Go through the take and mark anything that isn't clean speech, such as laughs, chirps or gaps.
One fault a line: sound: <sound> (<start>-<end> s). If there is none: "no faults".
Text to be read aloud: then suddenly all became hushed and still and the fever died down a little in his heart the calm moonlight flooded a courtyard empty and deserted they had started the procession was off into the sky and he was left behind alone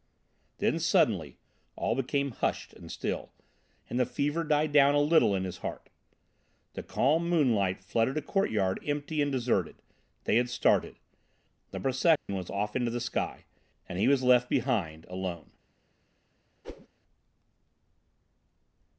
sound: dropout (12.2-12.3 s)
sound: whoosh (16.6-16.9 s)